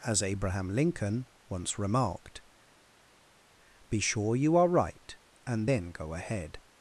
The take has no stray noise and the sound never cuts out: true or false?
true